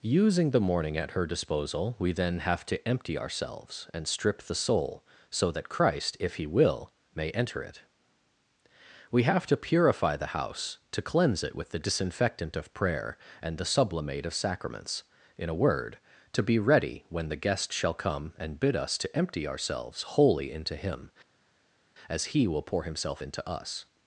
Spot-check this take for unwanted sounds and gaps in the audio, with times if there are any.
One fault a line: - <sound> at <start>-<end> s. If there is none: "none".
none